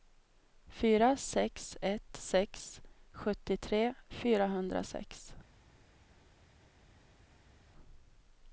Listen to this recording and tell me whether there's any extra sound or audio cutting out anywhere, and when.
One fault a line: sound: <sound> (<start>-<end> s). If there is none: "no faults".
no faults